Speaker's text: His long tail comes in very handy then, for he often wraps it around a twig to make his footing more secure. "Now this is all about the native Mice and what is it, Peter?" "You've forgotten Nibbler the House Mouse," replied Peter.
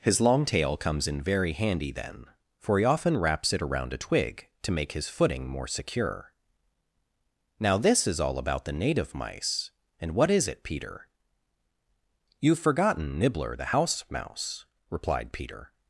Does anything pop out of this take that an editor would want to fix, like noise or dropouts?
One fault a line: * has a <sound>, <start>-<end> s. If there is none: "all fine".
all fine